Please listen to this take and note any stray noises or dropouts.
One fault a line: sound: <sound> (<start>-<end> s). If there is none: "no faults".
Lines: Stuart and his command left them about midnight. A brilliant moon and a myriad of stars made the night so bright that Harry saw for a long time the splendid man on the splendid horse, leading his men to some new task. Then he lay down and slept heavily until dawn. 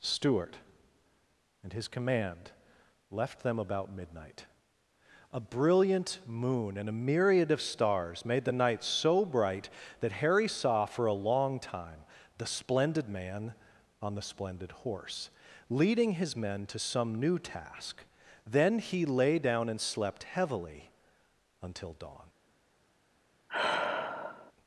sound: sigh (23.5-24.5 s)